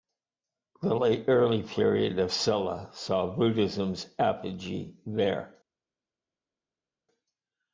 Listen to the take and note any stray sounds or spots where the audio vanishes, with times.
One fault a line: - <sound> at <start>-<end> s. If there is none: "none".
none